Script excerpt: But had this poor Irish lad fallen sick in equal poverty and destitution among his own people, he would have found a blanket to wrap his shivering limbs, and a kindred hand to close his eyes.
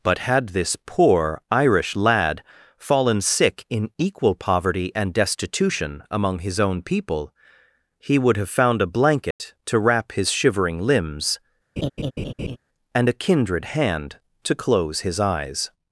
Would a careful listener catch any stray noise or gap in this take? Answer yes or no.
yes